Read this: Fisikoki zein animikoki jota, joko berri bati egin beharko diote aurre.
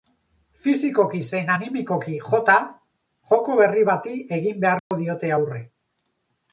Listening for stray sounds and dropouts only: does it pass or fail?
fail